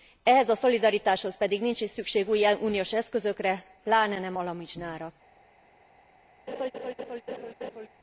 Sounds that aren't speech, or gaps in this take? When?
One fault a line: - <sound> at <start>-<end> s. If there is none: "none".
- laugh at 6.5-7.9 s